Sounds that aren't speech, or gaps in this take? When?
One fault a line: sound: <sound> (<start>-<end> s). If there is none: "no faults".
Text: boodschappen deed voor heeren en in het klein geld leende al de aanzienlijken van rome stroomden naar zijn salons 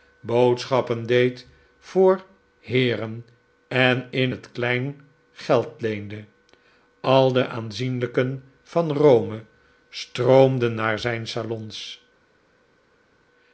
no faults